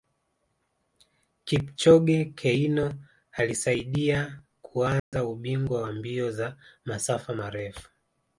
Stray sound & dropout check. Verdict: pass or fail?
fail